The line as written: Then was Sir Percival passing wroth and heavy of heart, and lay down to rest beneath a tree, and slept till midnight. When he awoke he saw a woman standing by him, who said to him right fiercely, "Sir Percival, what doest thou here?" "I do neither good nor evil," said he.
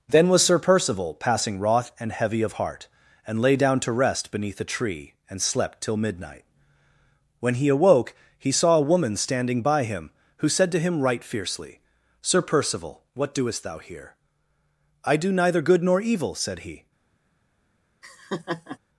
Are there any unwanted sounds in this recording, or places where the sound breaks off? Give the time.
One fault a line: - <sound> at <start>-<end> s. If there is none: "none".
- laugh at 18.0-18.8 s